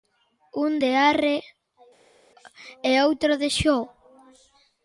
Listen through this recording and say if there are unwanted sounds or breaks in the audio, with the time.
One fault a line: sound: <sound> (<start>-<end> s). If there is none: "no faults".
no faults